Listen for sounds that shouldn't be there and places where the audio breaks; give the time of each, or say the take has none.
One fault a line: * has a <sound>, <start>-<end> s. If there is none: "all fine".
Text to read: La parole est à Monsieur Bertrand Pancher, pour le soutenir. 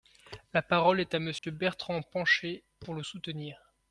* has a dropout, 1.4-1.4 s